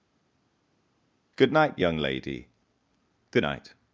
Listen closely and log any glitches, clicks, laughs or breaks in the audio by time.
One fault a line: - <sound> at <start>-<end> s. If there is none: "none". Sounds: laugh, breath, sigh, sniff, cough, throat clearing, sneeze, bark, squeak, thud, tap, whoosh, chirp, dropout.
none